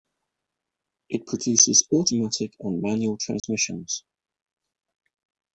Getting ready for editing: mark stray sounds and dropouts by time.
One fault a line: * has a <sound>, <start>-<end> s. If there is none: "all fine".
* has a dropout, 3.4-3.4 s